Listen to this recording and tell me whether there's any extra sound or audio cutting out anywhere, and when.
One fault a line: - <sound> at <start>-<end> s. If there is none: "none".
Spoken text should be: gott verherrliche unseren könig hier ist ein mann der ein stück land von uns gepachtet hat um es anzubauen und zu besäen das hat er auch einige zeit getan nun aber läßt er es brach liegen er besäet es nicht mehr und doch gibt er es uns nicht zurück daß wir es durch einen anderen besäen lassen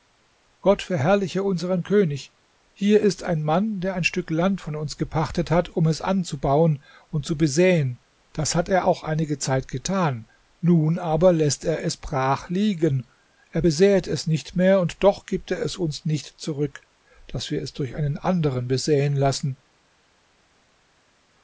none